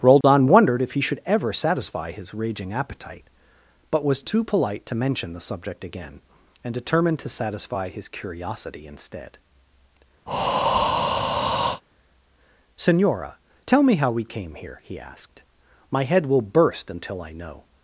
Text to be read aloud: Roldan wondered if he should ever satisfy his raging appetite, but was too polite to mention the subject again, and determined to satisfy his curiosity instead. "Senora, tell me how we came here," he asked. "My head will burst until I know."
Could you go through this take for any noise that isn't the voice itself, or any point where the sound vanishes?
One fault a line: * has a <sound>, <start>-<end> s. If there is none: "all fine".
* has a dropout, 0.2-0.2 s
* has a breath, 10.3-11.8 s